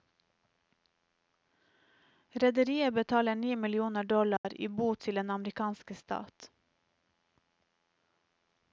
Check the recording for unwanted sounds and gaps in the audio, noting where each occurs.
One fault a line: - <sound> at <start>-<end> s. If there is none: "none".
- dropout at 4.4-4.4 s